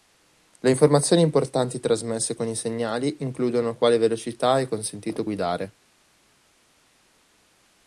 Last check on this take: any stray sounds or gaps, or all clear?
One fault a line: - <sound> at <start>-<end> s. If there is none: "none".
none